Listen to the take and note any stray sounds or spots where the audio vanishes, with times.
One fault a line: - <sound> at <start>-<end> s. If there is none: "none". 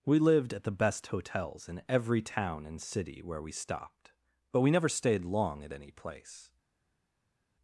none